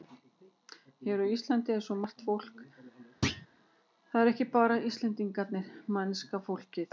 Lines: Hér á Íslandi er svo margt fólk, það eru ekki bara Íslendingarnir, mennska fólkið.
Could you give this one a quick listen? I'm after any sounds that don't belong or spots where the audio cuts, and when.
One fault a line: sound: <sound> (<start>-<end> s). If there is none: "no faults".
sound: thud (3.2-3.5 s)